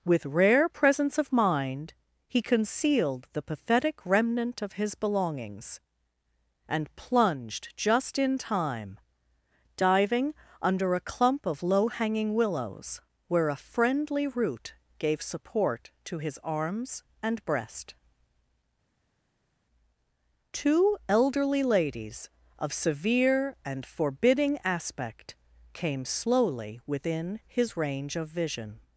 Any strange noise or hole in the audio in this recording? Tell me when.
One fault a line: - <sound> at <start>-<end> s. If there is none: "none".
none